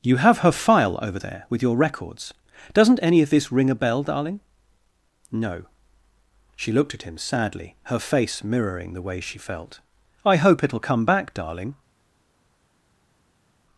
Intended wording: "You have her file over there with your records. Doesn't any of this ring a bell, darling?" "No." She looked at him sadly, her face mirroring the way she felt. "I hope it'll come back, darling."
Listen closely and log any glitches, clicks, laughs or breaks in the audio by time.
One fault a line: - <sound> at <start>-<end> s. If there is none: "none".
none